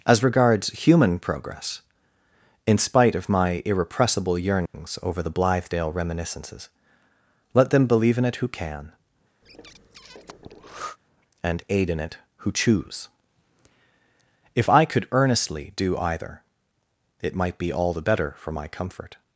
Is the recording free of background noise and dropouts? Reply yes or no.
no